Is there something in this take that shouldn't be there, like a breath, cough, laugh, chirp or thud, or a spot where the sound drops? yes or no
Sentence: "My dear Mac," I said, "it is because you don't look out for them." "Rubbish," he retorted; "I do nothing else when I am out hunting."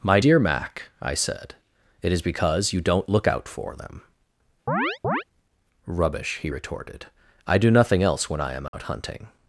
yes